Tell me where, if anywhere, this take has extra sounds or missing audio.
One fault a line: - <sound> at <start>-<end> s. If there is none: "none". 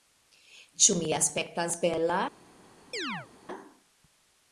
- chirp at 2.9-3.3 s